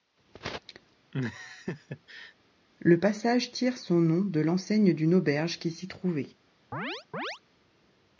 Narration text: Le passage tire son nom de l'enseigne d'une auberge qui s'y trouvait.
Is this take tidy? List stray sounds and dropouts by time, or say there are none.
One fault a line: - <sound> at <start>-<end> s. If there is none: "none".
- laugh at 1.1-2.3 s
- chirp at 6.7-7.4 s